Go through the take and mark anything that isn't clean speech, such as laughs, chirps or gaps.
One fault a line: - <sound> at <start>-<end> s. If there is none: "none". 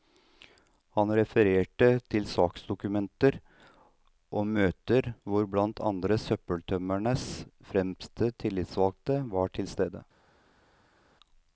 none